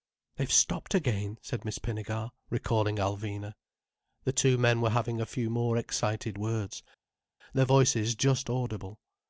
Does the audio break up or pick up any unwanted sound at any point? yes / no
no